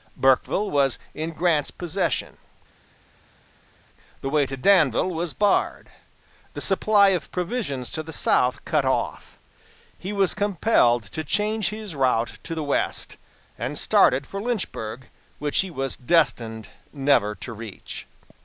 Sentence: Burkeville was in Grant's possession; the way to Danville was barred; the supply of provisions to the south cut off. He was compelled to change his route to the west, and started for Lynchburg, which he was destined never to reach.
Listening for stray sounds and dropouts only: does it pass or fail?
pass